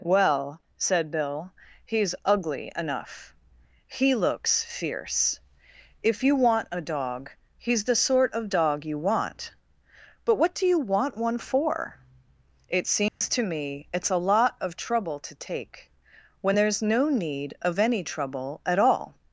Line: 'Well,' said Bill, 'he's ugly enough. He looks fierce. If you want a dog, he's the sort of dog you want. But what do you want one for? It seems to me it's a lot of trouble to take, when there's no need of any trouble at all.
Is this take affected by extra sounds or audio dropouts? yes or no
yes